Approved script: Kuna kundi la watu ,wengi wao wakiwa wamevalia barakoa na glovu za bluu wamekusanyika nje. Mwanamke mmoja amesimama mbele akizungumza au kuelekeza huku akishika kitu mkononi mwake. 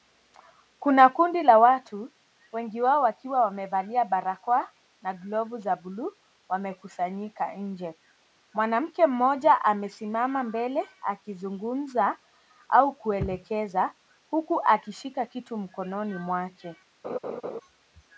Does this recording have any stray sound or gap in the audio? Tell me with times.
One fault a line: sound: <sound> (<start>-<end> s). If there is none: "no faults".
sound: laugh (17.0-17.6 s)